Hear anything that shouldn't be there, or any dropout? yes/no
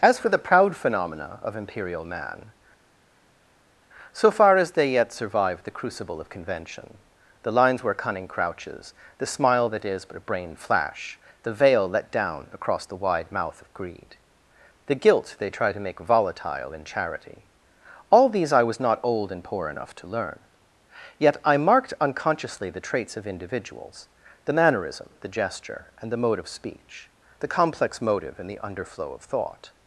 no